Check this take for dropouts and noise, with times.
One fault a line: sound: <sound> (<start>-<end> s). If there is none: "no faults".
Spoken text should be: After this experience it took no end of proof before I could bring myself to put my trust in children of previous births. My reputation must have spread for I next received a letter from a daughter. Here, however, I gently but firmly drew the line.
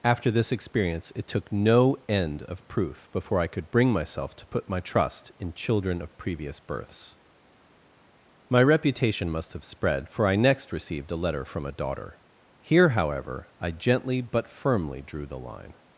no faults